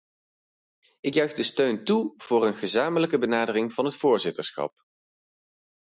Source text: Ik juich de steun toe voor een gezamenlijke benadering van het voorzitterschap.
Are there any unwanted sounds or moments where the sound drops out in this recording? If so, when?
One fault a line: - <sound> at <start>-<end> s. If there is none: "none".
none